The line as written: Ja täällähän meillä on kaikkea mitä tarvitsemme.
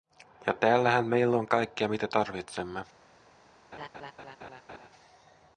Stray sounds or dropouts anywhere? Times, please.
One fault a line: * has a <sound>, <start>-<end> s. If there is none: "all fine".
* has a laugh, 3.7-4.9 s